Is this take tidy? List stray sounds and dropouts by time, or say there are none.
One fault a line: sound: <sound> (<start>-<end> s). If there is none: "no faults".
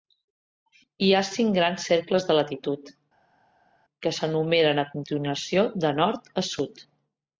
no faults